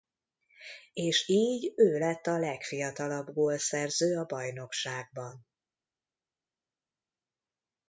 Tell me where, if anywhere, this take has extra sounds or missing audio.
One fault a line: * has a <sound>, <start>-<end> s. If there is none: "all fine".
all fine